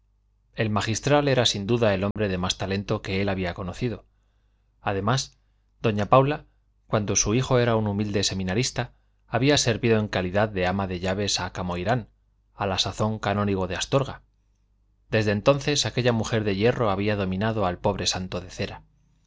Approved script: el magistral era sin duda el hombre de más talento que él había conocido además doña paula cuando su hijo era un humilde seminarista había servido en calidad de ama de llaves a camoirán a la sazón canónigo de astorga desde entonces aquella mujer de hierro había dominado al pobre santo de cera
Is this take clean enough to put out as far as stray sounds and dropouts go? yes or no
no